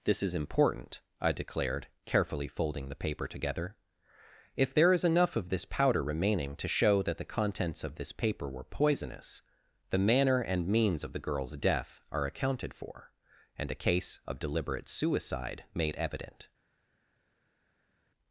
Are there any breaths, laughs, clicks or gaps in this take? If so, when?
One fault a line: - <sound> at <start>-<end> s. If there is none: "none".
none